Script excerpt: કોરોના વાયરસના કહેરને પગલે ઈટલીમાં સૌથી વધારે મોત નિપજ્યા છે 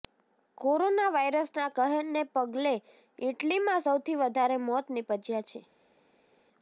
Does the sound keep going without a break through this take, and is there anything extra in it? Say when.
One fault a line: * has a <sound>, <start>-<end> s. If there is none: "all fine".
all fine